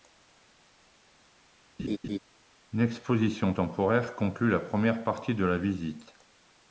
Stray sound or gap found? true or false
true